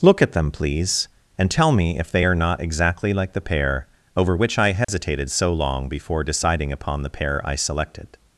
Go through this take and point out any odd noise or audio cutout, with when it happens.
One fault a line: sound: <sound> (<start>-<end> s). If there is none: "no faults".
sound: dropout (4.8-4.9 s)